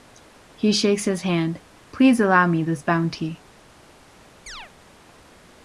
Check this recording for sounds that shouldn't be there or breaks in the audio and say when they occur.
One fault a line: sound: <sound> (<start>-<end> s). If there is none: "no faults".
sound: chirp (4.5-4.7 s)